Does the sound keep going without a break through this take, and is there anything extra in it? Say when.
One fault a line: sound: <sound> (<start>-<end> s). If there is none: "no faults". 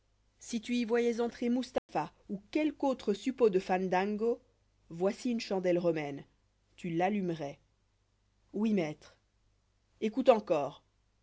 sound: dropout (1.8-1.9 s)